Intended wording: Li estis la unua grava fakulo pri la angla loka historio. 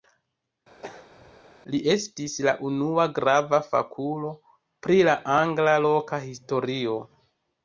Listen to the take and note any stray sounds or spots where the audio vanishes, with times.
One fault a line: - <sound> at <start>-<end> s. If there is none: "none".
- throat clearing at 0.8-1.4 s